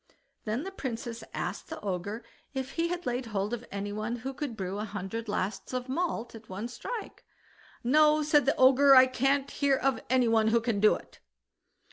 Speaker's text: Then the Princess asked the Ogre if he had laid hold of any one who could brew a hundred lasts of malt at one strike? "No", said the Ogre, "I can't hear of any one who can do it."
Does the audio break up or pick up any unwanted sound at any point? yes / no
no